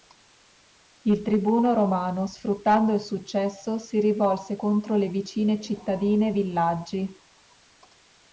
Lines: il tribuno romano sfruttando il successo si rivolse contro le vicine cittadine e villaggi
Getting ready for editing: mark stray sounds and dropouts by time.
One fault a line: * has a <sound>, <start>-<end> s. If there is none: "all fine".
all fine